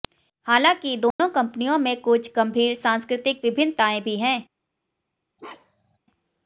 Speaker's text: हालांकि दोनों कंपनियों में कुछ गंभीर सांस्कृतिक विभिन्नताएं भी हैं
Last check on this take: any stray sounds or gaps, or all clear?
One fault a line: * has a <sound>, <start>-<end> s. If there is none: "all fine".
* has a dropout, 1.1-1.2 s
* has a bark, 5.4-6.0 s